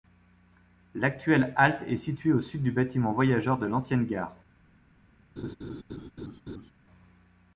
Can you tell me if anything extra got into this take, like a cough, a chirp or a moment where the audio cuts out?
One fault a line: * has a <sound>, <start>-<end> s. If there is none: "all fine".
* has a laugh, 5.4-6.7 s